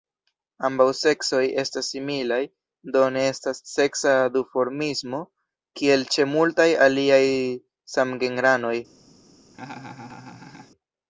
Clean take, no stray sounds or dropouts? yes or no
no